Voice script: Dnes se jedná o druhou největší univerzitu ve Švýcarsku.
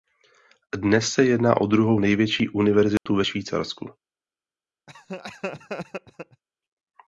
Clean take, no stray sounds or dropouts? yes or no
no